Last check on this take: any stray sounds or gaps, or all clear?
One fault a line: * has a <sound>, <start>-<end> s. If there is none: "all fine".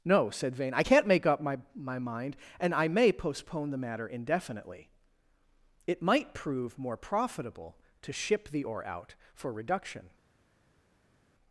all fine